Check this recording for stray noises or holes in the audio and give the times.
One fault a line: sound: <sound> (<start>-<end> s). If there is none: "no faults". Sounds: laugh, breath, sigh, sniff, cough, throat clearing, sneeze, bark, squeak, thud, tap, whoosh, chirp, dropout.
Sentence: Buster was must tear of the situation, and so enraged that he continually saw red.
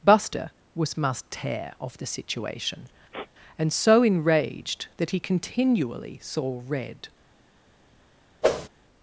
sound: sniff (3.1-3.3 s)
sound: whoosh (8.4-8.7 s)